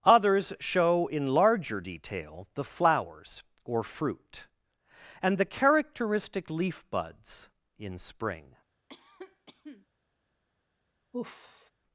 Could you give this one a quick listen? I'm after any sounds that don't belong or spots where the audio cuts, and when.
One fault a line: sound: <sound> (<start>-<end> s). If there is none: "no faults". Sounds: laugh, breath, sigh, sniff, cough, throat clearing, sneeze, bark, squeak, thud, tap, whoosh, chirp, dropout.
sound: cough (8.9-9.9 s)
sound: sigh (11.1-11.7 s)